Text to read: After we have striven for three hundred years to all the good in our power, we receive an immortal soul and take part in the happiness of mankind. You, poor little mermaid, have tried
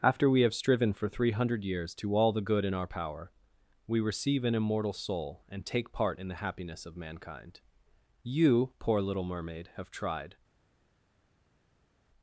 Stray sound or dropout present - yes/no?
no